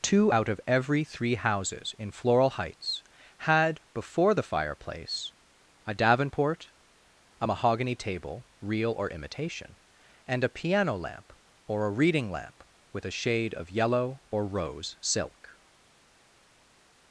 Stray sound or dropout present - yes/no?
no